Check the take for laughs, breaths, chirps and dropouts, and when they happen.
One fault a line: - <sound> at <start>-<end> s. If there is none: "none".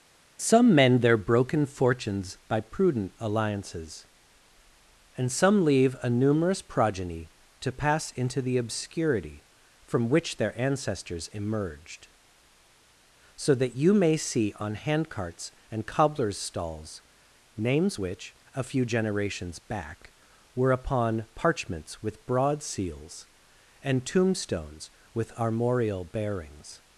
none